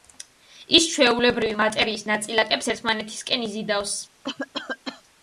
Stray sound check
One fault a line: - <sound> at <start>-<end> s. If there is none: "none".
- cough at 4.2-5.0 s